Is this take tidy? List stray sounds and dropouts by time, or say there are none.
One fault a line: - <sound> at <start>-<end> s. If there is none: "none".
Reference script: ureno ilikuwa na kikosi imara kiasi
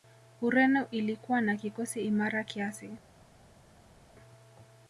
none